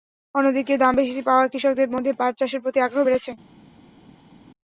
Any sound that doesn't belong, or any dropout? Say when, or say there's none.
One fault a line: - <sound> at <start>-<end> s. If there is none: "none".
none